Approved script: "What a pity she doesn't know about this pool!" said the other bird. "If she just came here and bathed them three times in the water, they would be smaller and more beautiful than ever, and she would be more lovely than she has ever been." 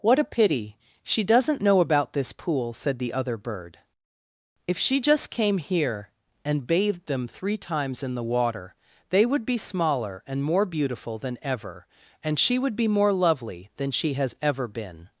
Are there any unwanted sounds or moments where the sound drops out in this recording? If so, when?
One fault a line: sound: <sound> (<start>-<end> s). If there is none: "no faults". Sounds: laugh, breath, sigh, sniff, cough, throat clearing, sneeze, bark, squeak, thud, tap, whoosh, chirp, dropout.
no faults